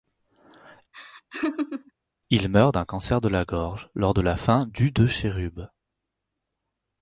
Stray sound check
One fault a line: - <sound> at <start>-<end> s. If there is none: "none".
- laugh at 0.9-1.9 s